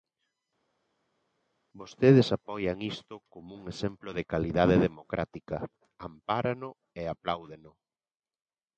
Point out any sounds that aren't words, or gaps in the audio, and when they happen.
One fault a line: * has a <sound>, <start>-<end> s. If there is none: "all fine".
all fine